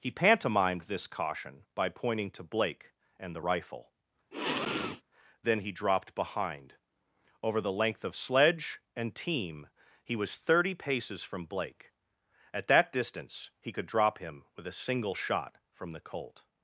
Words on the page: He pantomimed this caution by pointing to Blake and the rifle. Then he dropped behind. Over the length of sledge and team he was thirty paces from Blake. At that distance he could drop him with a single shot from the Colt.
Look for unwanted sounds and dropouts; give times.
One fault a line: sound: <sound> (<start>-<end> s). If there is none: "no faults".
sound: sniff (4.3-5.0 s)